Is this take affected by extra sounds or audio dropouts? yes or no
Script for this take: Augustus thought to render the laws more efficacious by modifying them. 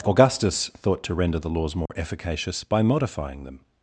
yes